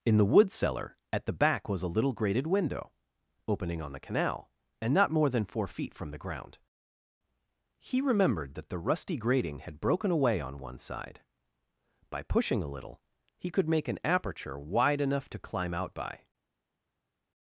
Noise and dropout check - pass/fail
pass